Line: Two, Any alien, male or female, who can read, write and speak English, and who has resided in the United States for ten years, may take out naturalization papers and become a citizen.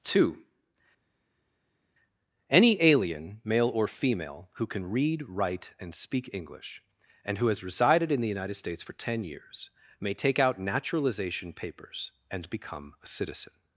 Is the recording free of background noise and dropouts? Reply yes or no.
yes